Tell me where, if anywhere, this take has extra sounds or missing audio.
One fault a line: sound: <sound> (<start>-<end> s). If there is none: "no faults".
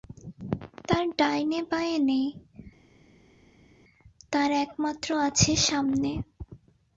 no faults